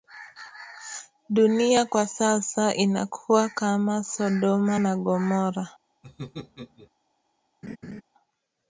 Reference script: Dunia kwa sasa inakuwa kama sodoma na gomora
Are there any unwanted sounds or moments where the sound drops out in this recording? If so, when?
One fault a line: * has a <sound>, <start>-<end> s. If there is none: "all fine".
* has a laugh, 6.0-6.9 s
* has a laugh, 7.6-8.0 s